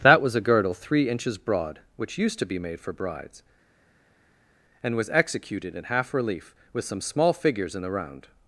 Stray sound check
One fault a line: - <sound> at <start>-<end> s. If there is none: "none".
none